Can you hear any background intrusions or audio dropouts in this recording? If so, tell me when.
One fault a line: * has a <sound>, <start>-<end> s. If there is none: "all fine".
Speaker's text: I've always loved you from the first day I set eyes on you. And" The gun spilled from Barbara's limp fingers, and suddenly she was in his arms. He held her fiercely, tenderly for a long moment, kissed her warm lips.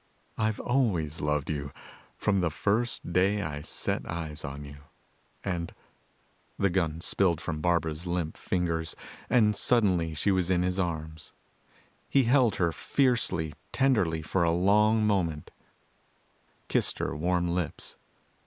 all fine